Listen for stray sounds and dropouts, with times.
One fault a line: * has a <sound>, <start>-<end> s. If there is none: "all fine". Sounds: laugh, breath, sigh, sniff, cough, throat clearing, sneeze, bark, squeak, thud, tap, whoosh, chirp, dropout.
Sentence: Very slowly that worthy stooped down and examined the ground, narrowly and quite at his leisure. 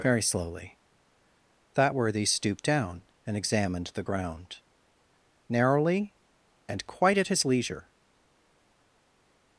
all fine